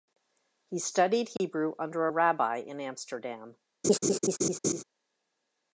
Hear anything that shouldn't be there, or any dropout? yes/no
yes